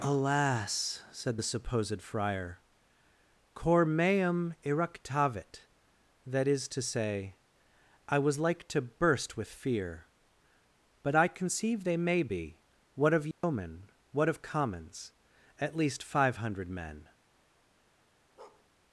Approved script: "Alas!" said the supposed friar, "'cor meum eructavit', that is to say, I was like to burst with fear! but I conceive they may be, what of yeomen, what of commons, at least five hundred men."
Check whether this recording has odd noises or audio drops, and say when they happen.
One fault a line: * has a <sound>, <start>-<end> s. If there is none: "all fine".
* has a dropout, 13.3-13.4 s
* has a bark, 18.4-18.7 s